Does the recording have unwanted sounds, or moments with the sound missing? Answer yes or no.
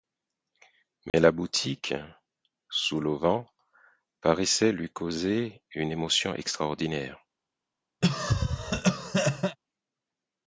yes